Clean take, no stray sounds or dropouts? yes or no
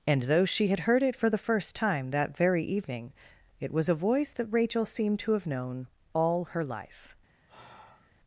no